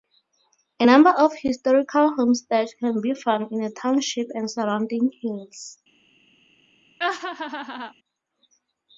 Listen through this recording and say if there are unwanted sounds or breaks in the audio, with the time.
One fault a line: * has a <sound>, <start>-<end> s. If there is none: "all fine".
* has a laugh, 7.0-7.9 s